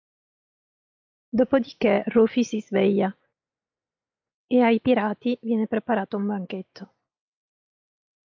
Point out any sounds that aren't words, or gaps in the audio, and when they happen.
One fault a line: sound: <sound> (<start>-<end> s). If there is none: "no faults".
no faults